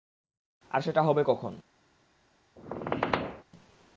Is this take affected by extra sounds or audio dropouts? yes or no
yes